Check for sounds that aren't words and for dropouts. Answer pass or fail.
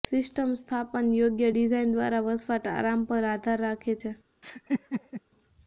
fail